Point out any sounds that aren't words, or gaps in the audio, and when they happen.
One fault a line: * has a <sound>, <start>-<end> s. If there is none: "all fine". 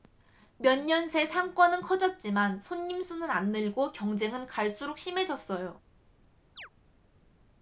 * has a chirp, 6.6-6.7 s